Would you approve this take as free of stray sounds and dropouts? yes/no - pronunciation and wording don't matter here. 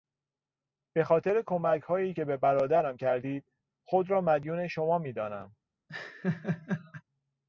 no